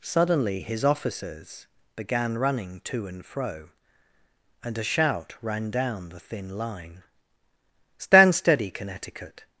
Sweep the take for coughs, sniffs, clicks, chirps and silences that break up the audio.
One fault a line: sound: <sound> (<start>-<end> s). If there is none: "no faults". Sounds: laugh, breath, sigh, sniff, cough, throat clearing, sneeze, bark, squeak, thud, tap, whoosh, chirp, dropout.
no faults